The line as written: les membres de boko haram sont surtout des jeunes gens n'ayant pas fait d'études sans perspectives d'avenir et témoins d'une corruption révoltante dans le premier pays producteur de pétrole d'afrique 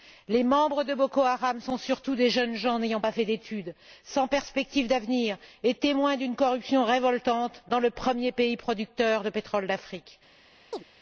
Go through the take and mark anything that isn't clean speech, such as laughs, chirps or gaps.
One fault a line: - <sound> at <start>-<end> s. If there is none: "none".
- chirp at 10.7-10.8 s